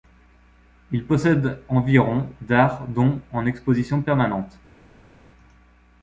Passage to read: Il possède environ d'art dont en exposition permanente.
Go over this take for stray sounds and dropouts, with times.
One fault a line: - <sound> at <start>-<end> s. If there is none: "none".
none